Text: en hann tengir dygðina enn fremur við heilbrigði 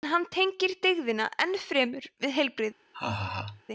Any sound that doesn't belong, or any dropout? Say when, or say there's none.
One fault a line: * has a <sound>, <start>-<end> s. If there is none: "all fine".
* has a laugh, 2.9-3.6 s